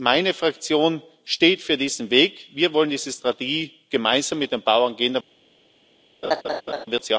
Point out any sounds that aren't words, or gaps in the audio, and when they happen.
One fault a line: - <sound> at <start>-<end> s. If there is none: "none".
- laugh at 6.2-6.9 s